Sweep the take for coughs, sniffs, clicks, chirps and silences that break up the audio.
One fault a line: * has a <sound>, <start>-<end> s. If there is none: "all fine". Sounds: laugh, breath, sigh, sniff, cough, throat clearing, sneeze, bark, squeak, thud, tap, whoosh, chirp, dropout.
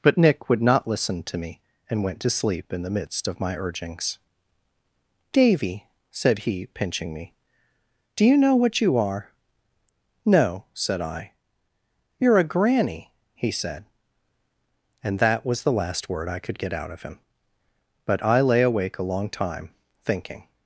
all fine